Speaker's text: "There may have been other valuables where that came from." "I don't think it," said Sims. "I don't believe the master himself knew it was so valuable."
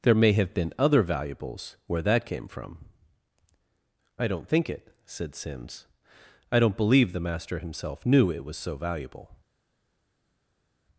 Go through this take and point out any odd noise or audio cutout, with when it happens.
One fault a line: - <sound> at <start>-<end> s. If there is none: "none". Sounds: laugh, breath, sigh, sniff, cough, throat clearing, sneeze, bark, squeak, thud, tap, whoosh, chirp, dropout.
none